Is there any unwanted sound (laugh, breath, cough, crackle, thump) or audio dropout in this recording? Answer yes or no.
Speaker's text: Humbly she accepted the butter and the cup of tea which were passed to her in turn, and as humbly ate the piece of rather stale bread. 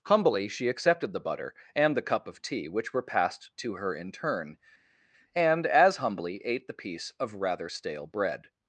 no